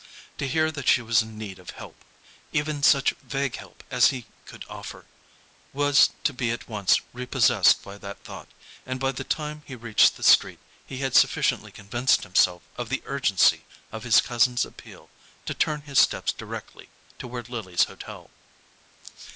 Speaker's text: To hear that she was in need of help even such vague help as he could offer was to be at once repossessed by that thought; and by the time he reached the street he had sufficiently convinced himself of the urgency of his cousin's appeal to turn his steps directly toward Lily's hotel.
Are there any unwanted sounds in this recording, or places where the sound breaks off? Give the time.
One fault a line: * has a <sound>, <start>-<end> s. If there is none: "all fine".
all fine